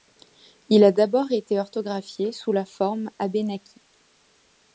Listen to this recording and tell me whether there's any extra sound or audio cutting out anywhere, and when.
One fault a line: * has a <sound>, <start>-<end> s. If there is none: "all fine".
all fine